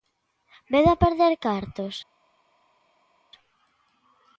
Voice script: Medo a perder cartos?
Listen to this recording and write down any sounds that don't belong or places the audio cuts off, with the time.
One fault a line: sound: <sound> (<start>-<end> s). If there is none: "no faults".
no faults